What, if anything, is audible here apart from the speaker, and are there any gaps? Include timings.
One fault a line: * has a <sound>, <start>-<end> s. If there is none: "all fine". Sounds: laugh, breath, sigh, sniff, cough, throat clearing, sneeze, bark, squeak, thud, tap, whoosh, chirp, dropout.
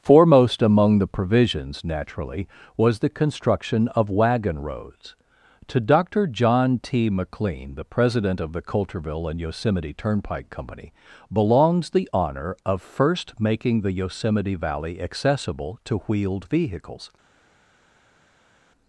all fine